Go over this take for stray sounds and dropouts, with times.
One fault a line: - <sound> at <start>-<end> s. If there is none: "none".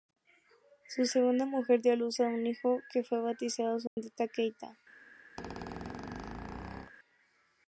- dropout at 3.9-4.0 s
- squeak at 5.4-6.9 s